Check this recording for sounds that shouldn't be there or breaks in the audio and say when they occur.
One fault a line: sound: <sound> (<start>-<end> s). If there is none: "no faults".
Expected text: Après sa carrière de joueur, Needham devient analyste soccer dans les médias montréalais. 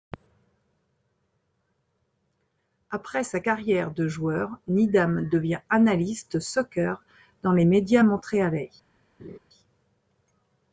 sound: laugh (9.2-9.4 s)